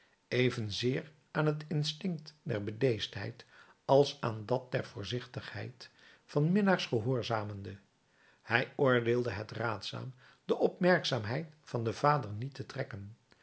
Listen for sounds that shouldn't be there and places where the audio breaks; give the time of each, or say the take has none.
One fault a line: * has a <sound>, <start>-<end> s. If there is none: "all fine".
all fine